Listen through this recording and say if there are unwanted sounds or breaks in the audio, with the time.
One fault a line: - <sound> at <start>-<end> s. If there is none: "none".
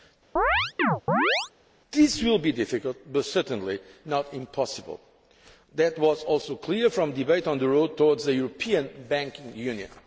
- chirp at 0.4-1.5 s